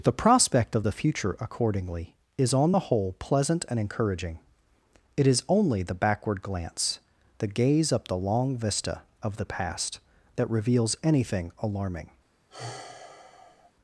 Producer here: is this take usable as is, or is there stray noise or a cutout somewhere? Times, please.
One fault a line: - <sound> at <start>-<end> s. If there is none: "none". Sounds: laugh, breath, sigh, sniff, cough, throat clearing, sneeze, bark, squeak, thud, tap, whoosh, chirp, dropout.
- sigh at 12.5-13.7 s